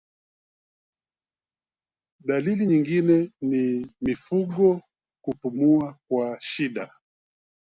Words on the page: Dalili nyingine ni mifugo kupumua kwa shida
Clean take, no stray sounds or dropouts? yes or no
yes